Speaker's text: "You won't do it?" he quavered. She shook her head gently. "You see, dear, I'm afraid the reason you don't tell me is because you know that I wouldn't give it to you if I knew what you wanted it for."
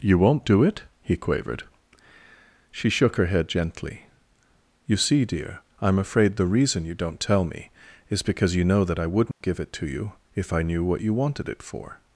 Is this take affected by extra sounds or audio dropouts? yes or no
yes